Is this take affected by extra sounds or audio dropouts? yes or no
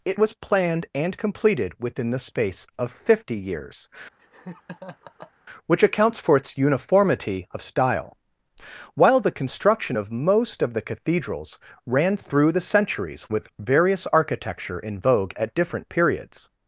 yes